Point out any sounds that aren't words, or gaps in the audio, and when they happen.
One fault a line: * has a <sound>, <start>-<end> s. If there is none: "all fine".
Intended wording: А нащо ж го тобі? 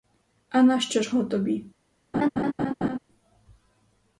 * has a laugh, 2.1-3.0 s